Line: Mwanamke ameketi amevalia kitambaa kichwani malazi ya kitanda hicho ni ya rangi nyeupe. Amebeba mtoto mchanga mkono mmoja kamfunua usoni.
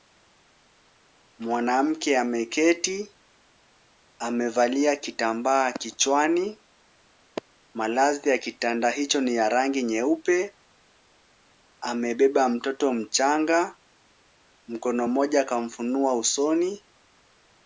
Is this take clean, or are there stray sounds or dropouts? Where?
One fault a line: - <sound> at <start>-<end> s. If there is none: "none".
none